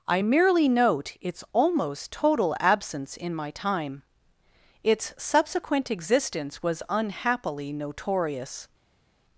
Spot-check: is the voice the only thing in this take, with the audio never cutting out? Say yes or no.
yes